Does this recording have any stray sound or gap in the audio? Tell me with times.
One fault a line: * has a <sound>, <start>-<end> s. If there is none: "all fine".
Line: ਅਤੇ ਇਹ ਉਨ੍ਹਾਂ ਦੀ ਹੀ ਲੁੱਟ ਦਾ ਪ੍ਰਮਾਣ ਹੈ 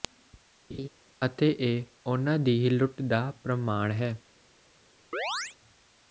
* has a laugh, 0.7-0.9 s
* has a chirp, 5.1-5.6 s